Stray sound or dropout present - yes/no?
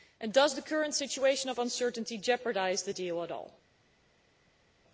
no